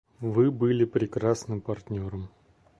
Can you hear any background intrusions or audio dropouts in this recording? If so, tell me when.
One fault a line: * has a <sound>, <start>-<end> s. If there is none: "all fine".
all fine